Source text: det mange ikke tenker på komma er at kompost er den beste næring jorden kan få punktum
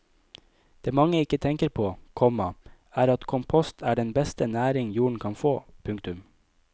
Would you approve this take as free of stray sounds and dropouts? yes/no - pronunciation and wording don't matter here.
yes